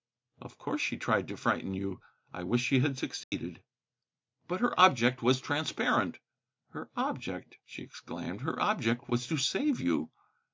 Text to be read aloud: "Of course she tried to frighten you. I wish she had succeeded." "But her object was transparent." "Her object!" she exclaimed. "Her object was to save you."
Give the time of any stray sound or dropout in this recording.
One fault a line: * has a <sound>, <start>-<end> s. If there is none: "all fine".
* has a dropout, 3.2-3.3 s